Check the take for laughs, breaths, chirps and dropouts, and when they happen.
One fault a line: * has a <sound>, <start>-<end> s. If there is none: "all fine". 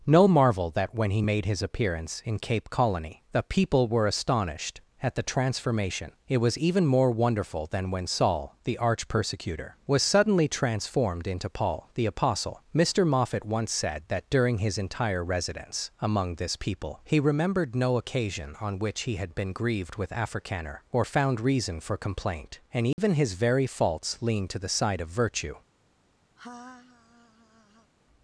* has a dropout, 22.9-23.0 s
* has a laugh, 26.4-27.9 s